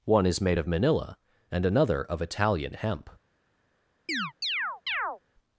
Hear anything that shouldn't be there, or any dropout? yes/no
yes